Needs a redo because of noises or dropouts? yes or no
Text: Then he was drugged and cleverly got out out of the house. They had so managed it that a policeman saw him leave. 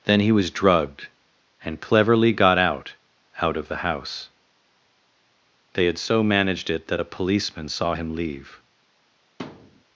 yes